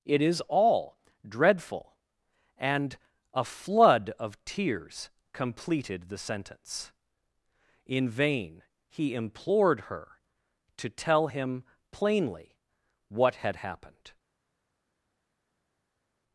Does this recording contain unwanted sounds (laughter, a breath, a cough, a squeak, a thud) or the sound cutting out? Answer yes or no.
no